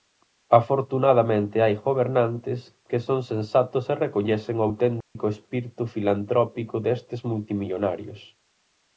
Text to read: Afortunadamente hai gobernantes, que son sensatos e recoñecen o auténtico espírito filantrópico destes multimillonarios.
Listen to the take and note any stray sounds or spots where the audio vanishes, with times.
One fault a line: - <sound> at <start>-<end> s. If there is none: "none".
- dropout at 5.0-5.2 s